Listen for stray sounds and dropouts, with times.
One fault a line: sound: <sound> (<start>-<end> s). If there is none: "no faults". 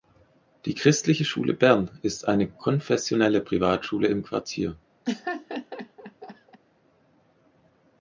sound: laugh (5.0-6.6 s)